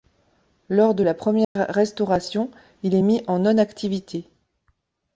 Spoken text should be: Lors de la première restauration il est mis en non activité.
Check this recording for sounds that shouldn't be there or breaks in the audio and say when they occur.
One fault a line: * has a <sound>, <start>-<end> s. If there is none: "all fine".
* has a dropout, 1.4-1.6 s